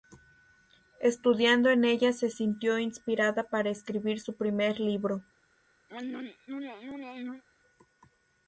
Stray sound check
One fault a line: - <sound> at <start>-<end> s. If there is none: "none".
- throat clearing at 5.9-7.4 s